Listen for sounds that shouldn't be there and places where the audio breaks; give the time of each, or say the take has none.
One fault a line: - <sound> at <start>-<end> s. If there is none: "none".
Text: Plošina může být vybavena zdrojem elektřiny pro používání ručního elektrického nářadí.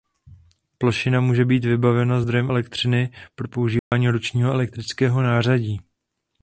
- dropout at 3.8-3.9 s